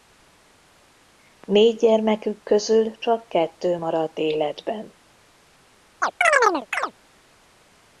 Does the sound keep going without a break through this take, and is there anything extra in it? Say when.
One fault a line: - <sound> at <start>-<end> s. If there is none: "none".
- chirp at 6.0-6.9 s